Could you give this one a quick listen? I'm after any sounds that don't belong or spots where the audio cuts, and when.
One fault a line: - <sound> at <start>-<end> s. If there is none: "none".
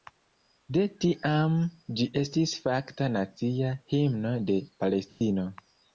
- dropout at 5.1-5.2 s